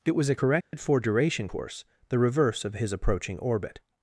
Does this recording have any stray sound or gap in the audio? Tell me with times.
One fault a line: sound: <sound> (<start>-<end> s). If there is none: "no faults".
sound: dropout (0.6-0.7 s)